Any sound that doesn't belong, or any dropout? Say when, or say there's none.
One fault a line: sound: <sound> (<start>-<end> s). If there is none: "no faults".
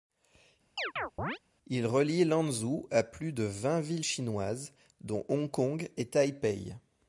sound: chirp (0.8-1.4 s)